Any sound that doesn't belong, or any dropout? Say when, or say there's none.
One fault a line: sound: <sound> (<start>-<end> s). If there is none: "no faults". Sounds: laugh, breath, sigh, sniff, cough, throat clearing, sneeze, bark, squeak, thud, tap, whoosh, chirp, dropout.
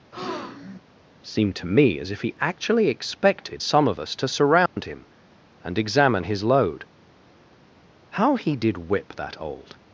sound: breath (0.1-0.8 s)
sound: dropout (4.7-4.8 s)